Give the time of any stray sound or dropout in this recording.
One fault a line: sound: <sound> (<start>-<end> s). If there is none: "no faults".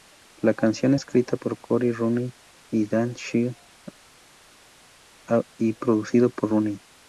no faults